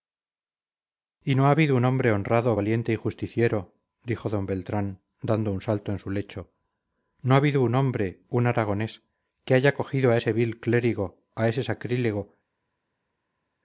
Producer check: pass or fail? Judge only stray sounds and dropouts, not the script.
pass